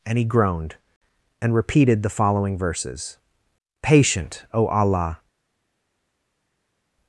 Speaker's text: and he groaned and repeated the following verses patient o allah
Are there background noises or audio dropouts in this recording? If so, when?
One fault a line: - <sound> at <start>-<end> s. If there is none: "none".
none